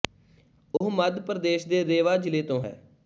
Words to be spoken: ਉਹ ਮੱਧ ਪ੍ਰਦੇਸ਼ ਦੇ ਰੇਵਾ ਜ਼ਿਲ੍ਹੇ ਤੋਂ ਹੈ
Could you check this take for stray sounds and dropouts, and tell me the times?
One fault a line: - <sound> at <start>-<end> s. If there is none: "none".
- dropout at 0.8-0.8 s